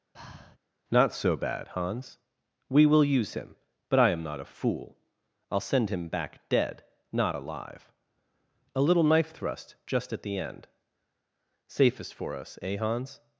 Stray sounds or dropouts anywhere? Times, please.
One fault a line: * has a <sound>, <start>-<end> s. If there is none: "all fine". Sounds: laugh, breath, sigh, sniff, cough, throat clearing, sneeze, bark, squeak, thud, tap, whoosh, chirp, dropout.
* has a breath, 0.1-0.6 s